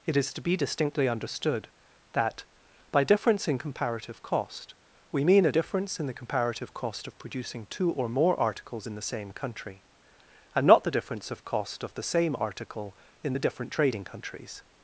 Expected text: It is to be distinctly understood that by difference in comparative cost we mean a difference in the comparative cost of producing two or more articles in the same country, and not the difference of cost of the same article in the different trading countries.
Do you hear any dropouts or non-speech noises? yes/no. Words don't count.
no